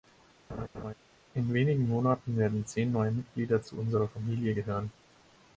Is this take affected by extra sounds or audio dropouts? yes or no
yes